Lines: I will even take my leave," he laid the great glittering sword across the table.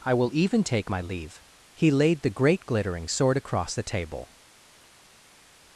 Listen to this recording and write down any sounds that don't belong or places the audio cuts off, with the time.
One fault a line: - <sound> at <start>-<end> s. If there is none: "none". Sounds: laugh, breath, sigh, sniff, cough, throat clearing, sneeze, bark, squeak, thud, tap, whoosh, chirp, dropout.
none